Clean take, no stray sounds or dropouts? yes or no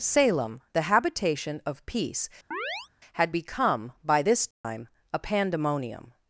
no